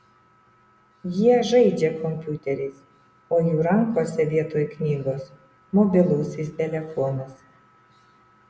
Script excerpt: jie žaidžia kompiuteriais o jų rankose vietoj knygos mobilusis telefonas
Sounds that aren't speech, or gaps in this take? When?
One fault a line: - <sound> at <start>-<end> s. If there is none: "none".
none